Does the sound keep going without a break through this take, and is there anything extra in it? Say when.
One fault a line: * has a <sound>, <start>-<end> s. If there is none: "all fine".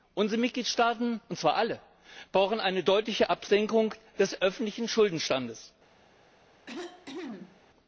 * has a cough, 6.7-7.6 s